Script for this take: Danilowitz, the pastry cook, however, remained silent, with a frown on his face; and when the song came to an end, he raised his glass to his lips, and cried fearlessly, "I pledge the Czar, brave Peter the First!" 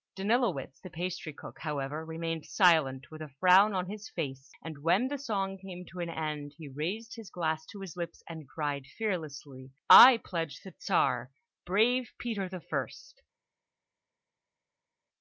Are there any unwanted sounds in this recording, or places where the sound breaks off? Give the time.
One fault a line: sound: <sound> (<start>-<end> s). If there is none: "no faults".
no faults